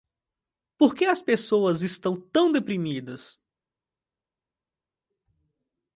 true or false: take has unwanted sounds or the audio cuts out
false